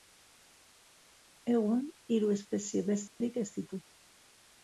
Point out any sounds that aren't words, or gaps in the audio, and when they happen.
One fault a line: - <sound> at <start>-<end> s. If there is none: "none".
- dropout at 3.1-3.2 s